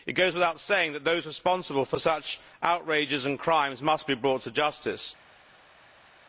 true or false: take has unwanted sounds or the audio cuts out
false